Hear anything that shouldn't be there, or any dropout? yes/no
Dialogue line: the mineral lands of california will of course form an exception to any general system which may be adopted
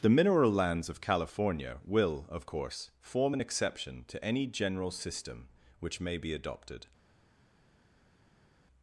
no